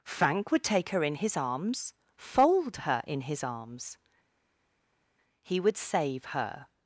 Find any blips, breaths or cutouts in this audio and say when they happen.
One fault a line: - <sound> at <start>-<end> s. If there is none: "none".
none